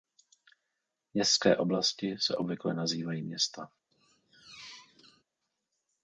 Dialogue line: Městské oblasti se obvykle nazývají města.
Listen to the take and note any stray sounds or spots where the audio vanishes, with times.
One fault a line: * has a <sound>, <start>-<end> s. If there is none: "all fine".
* has a squeak, 3.9-5.2 s